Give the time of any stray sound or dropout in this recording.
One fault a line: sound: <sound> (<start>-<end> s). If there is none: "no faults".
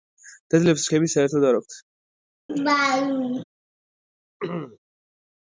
sound: laugh (2.5-3.4 s)
sound: throat clearing (4.4-4.8 s)